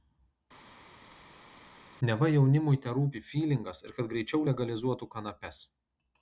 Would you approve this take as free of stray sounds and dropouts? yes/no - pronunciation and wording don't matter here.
yes